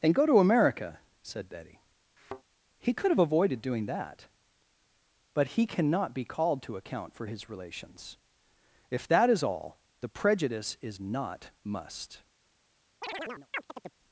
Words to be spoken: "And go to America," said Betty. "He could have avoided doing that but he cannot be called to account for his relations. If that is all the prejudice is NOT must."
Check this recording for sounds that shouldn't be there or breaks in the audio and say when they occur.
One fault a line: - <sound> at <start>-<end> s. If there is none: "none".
- thud at 2.2-2.4 s
- chirp at 13.0-14.0 s